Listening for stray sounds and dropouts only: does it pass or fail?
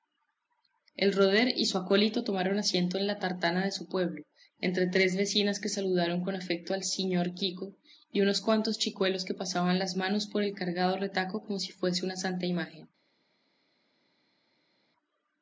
pass